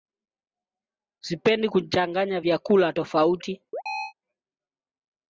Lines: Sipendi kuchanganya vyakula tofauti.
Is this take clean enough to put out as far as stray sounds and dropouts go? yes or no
no